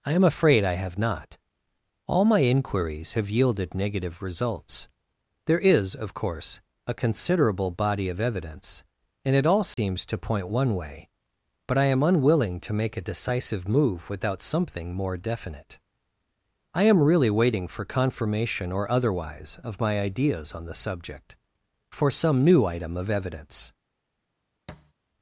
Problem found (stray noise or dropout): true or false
true